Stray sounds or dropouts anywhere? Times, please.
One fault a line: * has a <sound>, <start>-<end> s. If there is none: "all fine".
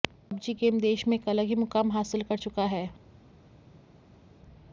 all fine